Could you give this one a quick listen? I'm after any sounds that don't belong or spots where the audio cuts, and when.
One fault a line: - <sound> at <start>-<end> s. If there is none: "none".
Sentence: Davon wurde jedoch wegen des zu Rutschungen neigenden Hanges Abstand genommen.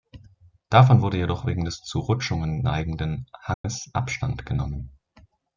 - dropout at 3.5-3.6 s